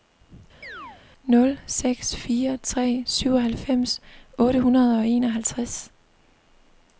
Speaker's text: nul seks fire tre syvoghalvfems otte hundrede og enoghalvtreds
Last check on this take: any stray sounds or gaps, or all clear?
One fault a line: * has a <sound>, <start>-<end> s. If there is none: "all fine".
* has a chirp, 0.6-1.0 s